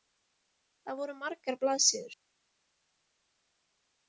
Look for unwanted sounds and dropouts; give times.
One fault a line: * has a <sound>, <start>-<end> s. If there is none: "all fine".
all fine